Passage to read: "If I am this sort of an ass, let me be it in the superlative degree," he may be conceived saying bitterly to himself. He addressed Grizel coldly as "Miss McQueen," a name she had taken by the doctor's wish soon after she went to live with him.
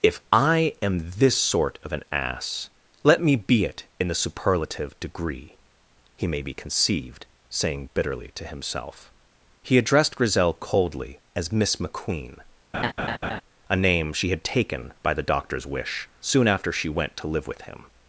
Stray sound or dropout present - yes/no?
yes